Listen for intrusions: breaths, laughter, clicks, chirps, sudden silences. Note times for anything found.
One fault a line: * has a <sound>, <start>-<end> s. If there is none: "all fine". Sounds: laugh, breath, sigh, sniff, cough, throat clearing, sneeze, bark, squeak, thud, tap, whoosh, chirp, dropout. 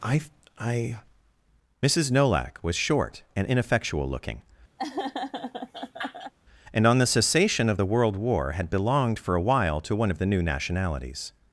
* has a laugh, 4.8-6.3 s